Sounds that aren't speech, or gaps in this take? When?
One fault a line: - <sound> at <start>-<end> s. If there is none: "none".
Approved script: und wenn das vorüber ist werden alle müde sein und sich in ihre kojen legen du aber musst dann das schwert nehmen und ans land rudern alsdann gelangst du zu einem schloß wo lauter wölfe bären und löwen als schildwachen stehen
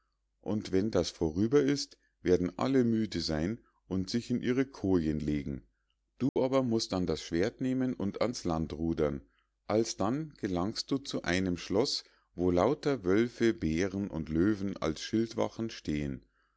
- dropout at 6.3-6.4 s